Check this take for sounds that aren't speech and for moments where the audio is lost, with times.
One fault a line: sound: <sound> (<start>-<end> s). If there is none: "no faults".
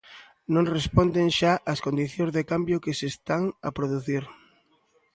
no faults